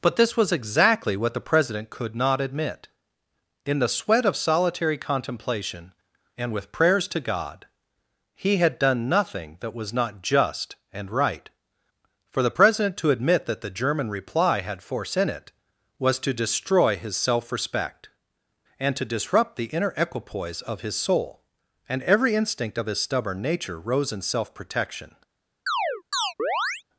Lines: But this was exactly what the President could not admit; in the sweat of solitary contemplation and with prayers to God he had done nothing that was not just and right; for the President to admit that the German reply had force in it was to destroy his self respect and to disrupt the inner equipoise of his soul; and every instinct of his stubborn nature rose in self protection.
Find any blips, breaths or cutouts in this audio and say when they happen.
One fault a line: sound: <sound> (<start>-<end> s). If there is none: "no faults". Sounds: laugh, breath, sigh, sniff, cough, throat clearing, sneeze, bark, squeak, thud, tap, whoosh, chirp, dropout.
sound: chirp (25.7-26.8 s)